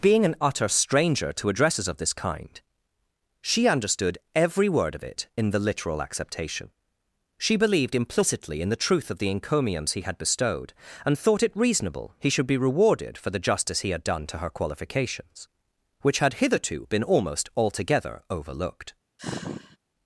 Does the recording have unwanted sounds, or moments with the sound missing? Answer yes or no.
yes